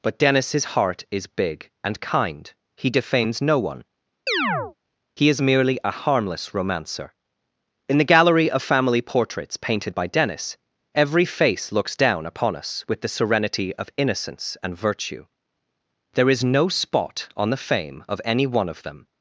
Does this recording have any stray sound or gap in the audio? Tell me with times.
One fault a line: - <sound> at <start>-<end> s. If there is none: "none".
- chirp at 4.3-4.7 s